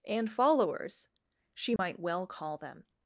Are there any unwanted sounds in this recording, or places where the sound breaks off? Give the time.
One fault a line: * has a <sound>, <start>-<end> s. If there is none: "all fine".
* has a dropout, 1.8-1.8 s